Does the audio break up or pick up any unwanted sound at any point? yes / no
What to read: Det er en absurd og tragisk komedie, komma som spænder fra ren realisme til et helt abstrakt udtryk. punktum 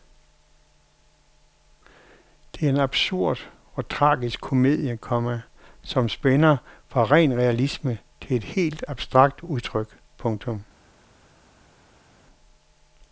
no